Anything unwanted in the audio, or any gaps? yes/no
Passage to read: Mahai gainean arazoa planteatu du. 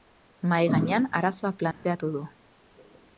yes